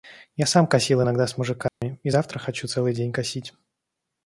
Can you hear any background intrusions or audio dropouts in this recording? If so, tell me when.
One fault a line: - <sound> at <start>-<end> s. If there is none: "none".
- dropout at 1.7-1.8 s